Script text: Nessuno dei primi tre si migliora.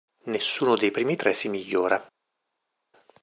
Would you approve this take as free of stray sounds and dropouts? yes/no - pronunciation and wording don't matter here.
yes